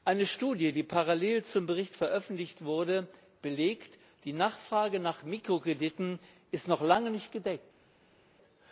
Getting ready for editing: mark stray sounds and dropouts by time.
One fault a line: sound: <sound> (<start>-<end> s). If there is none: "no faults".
no faults